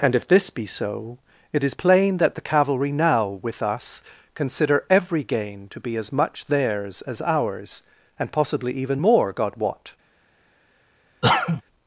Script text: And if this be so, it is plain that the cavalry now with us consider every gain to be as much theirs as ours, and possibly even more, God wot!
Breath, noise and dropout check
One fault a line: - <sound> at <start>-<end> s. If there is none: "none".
- cough at 11.2-11.6 s